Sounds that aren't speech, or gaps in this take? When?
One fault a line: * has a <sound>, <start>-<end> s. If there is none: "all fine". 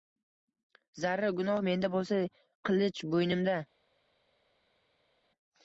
all fine